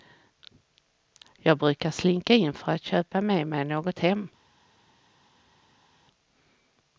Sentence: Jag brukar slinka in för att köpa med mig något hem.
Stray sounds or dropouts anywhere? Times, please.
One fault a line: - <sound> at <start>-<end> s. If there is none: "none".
none